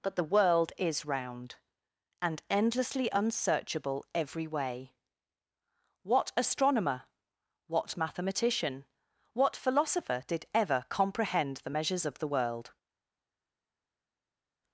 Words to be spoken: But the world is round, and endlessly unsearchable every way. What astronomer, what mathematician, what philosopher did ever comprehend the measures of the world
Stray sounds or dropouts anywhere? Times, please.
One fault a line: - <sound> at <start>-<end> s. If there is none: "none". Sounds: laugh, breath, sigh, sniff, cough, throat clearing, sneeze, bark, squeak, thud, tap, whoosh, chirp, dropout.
none